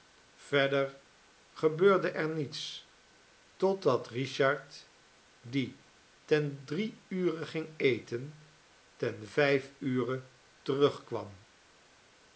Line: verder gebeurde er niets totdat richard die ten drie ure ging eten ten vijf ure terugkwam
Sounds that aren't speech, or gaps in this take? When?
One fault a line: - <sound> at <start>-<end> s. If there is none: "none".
none